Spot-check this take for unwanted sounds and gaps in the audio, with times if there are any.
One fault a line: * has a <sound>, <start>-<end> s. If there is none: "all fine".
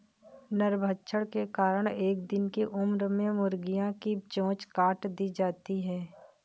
all fine